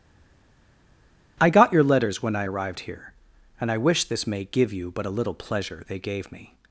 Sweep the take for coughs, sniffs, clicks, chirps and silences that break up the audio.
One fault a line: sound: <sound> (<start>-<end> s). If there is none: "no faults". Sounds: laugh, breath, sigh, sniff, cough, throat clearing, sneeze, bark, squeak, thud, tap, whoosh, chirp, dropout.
no faults